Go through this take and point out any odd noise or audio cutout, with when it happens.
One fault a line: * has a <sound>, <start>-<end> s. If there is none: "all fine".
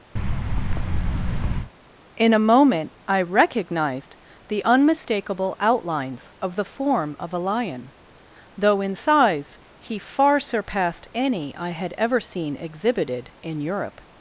* has a thud, 0.2-1.7 s